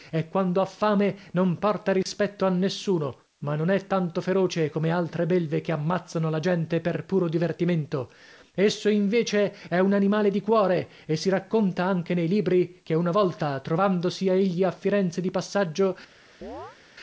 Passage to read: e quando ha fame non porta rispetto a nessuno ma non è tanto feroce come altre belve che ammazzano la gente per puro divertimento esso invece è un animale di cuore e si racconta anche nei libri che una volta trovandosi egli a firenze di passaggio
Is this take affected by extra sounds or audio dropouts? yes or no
yes